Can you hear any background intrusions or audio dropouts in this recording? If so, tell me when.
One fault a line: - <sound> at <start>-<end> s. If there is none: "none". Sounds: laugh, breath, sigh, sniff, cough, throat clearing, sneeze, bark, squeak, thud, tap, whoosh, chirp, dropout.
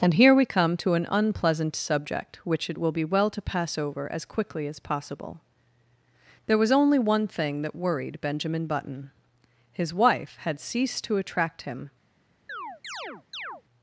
- chirp at 12.5-13.6 s